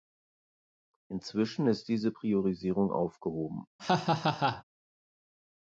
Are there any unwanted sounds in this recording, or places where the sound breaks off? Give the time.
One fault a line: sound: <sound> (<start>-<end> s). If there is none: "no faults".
sound: laugh (3.8-4.6 s)